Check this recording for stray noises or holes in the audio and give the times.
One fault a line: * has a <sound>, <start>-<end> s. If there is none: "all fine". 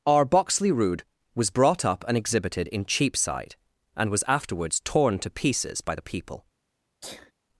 * has a sneeze, 7.0-7.3 s